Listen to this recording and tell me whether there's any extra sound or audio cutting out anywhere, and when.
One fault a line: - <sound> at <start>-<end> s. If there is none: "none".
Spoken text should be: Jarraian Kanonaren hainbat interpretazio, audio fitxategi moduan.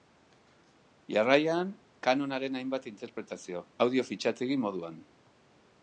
none